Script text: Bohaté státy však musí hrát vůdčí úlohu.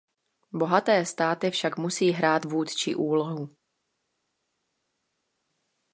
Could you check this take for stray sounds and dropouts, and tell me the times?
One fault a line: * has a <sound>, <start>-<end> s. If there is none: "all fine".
all fine